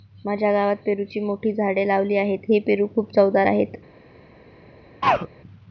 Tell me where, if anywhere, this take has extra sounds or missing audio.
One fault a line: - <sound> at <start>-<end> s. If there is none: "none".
- throat clearing at 5.0-5.3 s